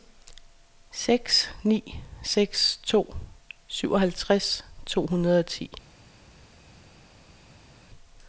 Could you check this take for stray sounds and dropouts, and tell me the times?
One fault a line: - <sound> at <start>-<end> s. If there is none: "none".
none